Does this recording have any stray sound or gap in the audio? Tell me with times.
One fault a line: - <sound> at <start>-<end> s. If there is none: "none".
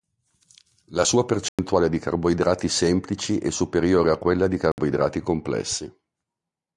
- dropout at 1.5-1.6 s
- dropout at 4.7-4.8 s